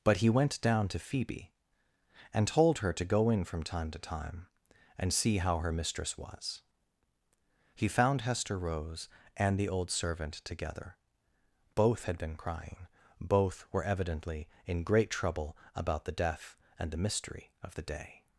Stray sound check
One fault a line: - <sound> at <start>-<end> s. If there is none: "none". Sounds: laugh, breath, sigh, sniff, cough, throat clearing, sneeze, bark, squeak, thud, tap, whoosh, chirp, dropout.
none